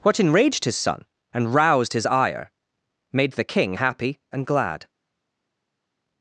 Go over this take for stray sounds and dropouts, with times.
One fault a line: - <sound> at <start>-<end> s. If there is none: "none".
none